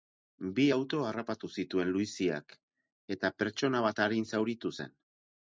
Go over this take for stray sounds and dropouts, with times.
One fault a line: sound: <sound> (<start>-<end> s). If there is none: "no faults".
no faults